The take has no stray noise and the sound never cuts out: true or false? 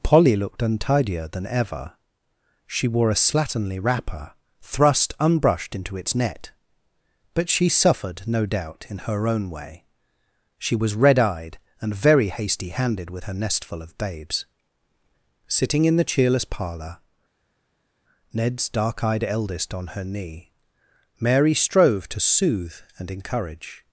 true